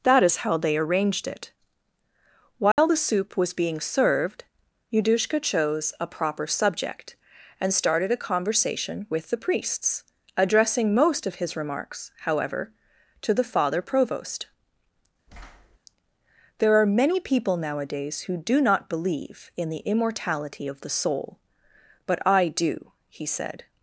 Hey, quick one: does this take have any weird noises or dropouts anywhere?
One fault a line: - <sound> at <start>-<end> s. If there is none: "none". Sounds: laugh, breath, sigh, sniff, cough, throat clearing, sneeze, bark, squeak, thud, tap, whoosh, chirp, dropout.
- dropout at 2.7-2.8 s
- thud at 15.3-15.8 s